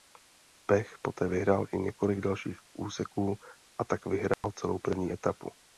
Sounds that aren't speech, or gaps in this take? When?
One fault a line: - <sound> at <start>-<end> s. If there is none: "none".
- dropout at 4.3-4.4 s